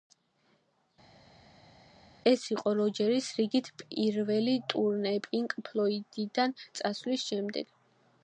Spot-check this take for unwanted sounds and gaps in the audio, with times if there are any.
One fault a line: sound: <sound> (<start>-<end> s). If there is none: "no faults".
no faults